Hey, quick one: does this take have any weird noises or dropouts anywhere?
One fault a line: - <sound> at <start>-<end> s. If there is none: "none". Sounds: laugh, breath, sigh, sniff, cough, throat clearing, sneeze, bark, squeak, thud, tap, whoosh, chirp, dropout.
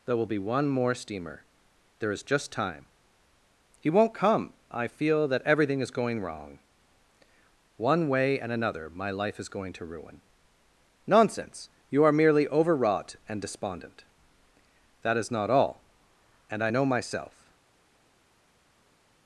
none